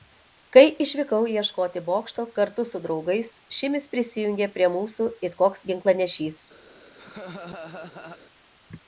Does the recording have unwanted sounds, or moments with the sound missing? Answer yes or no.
yes